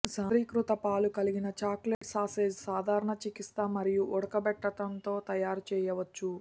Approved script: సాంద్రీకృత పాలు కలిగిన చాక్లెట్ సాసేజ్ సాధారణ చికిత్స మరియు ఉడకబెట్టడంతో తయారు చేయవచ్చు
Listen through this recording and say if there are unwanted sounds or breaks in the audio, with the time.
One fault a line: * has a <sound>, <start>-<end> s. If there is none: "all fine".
* has a dropout, 1.9-2.0 s